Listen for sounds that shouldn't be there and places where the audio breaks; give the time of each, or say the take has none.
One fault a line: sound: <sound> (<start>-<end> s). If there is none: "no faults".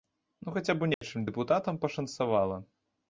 sound: dropout (0.9-1.0 s)